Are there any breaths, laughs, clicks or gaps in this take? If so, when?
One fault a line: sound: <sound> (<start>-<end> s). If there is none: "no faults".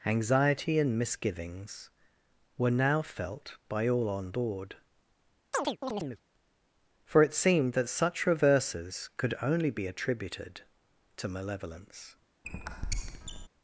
sound: chirp (5.5-6.2 s)
sound: squeak (12.4-13.5 s)